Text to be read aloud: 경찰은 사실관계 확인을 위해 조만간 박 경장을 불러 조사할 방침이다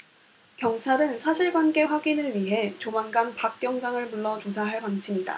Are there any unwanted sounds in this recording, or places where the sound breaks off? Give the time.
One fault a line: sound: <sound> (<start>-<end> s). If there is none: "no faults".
no faults